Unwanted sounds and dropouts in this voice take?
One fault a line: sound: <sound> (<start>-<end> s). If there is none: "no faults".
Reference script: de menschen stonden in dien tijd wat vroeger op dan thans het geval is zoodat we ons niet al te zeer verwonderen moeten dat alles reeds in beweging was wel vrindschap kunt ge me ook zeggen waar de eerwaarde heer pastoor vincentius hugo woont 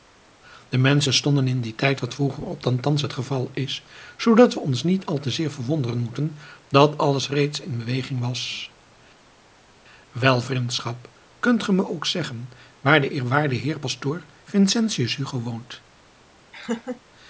sound: laugh (16.5-17.0 s)